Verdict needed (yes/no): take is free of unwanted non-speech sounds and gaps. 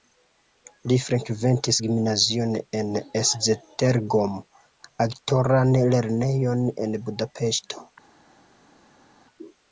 yes